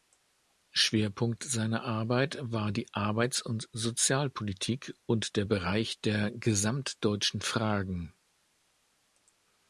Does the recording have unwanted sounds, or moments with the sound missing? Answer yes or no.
no